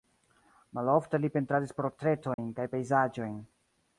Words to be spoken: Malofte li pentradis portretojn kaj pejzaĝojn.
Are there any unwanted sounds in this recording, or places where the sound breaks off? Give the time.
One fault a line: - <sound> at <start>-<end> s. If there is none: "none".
- dropout at 2.3-2.4 s